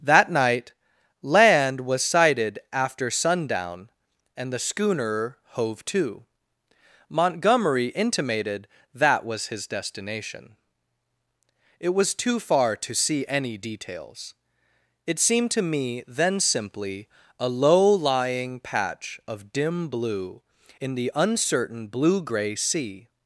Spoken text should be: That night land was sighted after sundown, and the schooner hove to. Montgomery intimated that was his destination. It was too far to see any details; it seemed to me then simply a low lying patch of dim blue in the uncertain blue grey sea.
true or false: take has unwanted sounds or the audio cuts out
false